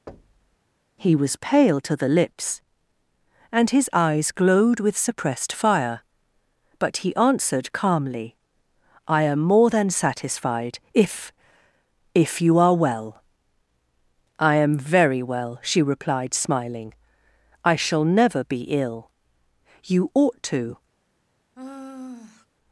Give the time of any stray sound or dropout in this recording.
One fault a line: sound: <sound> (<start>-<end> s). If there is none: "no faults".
sound: thud (0.1-0.6 s)
sound: sigh (21.5-22.5 s)